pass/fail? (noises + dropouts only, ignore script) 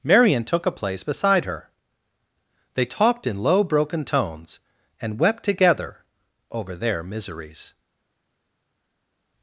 pass